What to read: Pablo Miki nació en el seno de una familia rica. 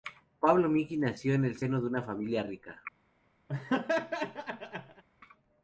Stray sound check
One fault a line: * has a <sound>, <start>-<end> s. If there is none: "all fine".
* has a laugh, 3.5-5.0 s